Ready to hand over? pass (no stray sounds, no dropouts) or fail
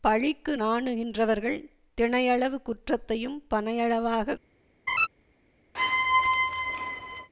fail